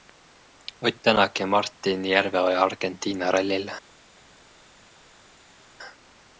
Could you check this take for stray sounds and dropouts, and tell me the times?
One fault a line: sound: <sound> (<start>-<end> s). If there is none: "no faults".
no faults